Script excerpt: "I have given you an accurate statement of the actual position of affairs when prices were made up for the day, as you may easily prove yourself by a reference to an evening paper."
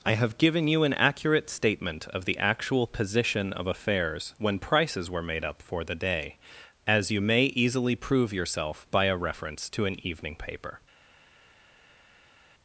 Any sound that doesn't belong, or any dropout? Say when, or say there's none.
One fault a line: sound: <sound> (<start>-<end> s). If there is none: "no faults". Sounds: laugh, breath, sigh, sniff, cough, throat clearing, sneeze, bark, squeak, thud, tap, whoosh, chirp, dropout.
no faults